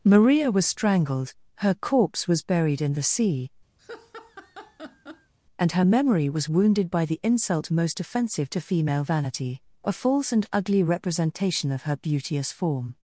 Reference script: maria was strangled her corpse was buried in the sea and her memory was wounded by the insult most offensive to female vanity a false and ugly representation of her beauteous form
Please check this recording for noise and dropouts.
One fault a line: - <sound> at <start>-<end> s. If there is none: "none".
- laugh at 3.8-5.3 s